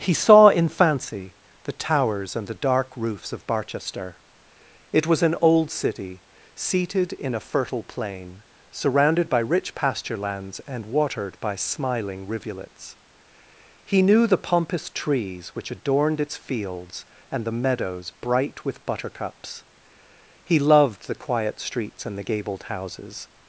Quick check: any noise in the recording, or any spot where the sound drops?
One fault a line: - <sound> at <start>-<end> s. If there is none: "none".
none